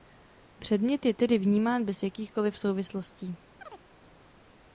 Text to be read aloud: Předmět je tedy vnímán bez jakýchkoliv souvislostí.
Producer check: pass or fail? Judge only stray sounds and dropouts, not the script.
fail